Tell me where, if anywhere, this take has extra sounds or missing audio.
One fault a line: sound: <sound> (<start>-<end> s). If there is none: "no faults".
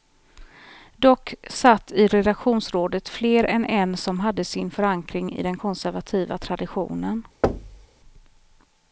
sound: thud (7.4-7.9 s)